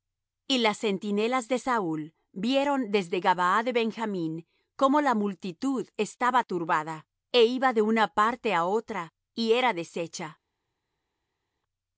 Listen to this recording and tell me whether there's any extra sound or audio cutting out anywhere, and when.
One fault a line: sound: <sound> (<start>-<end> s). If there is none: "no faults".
no faults